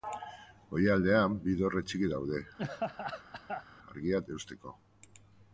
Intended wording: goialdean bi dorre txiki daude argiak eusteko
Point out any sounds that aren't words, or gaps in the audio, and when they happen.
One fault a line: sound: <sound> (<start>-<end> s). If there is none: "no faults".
sound: laugh (2.6-3.6 s)